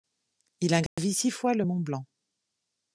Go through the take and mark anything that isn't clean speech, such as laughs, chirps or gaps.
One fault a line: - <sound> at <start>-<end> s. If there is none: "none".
- dropout at 0.9-1.0 s